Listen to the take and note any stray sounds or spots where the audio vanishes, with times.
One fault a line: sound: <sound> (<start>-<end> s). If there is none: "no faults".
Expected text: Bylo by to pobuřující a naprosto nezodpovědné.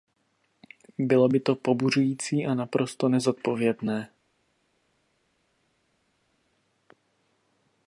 no faults